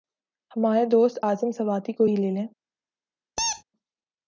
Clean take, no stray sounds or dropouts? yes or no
no